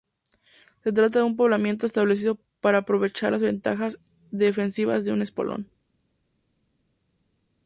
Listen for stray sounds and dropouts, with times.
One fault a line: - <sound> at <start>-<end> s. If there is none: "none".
none